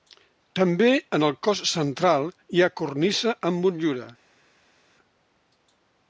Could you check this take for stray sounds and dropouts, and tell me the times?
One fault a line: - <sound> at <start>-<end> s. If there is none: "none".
none